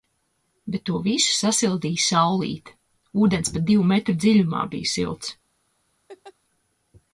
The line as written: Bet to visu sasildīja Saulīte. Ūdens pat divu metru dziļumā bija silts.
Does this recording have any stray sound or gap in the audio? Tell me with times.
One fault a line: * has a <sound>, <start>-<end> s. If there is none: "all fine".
* has a laugh, 6.1-6.3 s